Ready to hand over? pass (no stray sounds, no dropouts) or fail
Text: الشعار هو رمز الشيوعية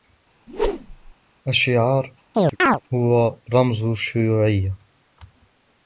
fail